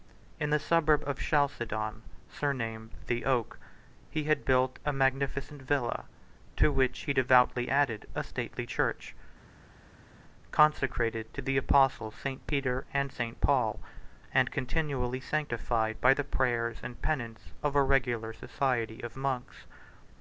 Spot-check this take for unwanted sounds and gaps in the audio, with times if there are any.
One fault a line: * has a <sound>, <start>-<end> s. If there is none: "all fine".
all fine